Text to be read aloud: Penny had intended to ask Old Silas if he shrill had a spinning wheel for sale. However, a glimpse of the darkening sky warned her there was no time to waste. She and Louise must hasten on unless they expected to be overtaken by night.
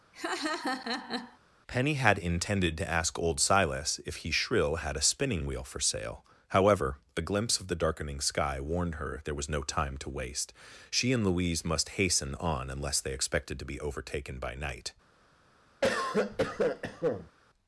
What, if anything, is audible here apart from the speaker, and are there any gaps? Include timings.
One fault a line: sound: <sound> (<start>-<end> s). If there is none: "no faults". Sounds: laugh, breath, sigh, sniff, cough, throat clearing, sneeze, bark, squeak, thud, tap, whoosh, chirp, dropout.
sound: laugh (0.1-1.4 s)
sound: cough (15.8-17.3 s)